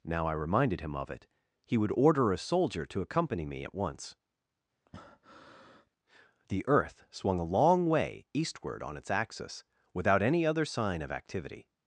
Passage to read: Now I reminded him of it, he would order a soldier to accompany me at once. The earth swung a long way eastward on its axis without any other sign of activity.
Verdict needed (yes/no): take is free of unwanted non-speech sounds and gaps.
no